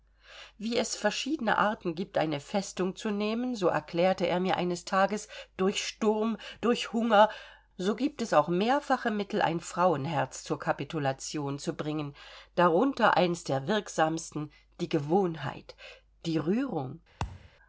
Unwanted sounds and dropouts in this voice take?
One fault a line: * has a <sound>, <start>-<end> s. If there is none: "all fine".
* has a thud, 17.2-17.5 s